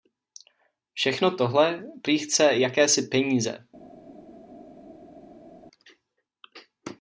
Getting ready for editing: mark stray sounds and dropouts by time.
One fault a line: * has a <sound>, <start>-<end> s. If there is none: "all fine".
all fine